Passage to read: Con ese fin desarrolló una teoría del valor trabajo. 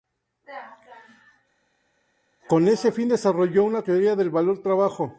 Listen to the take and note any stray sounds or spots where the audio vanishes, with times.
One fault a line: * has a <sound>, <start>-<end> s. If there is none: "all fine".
all fine